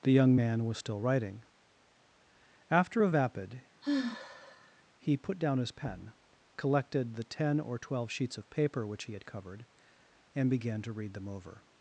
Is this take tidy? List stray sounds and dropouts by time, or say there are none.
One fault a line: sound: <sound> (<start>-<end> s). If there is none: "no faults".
sound: sigh (3.8-4.8 s)